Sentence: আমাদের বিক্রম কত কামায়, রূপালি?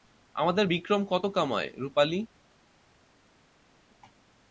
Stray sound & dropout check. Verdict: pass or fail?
pass